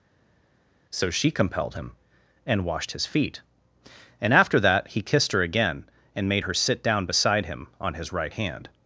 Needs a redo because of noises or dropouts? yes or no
no